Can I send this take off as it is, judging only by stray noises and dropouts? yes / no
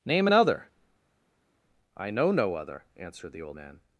yes